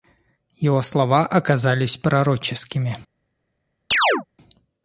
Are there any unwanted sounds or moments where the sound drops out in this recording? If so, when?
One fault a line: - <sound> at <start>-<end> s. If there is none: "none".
- chirp at 3.9-4.3 s